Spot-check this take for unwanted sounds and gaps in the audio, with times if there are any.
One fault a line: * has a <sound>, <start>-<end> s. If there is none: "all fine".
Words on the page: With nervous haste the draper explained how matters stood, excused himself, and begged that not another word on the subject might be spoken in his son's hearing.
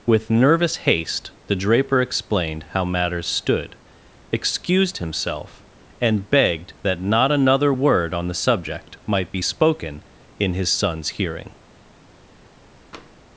* has a tap, 12.9-13.1 s